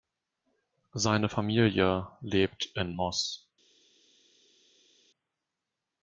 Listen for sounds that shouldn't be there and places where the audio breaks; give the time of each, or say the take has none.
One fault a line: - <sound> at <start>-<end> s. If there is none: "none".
none